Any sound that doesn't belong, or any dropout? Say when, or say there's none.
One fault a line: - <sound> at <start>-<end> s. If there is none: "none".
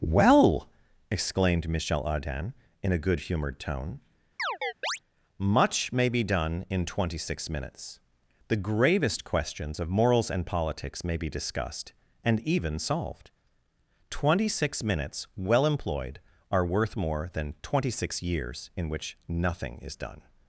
- chirp at 4.4-5.0 s